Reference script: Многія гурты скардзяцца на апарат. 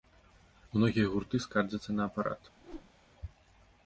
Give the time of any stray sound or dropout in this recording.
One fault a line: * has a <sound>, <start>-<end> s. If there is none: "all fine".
* has a whoosh, 2.6-2.9 s